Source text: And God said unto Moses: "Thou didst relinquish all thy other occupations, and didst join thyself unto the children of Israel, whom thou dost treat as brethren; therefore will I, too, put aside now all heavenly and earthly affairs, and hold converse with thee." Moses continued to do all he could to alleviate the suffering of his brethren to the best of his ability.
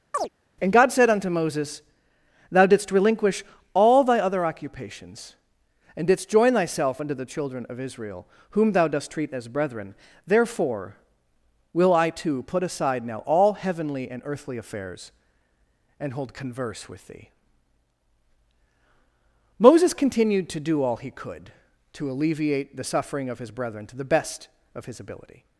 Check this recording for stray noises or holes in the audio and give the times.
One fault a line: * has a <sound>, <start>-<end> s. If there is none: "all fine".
* has a chirp, 0.1-0.3 s